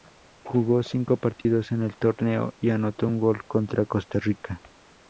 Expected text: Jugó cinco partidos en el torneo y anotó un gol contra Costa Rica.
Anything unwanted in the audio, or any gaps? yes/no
yes